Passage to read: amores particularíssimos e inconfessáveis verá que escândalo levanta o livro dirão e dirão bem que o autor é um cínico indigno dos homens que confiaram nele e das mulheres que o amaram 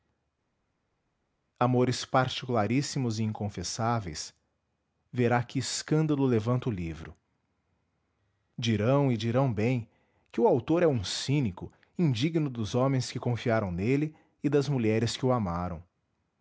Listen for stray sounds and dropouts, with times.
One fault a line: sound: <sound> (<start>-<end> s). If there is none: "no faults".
no faults